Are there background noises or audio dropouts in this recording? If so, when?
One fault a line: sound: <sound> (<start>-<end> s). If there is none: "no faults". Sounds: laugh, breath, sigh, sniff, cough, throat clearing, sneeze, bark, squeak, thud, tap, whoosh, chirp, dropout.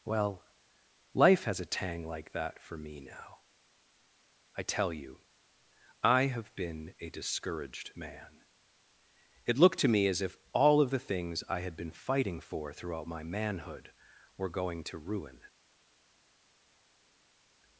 no faults